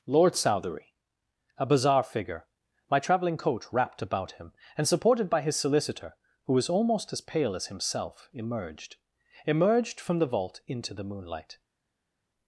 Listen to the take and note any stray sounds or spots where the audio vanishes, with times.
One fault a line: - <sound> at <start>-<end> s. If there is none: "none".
none